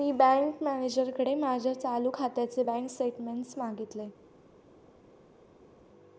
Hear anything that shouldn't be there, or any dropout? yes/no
no